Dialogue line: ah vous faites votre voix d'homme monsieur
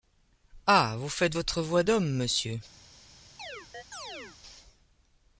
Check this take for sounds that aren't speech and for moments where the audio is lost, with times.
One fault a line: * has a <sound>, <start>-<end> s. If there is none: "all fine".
* has a chirp, 3.4-4.4 s